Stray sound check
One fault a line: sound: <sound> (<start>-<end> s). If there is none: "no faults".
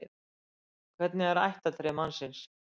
no faults